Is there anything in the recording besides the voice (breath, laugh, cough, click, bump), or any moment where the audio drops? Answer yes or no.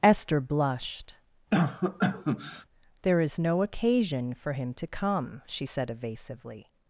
yes